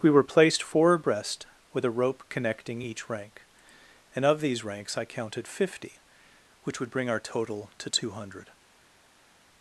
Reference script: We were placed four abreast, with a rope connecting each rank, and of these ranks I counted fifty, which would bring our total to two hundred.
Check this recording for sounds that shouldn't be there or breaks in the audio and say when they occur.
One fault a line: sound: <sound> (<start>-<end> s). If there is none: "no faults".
no faults